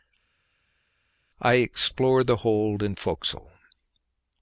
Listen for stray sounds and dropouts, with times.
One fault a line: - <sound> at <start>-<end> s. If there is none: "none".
none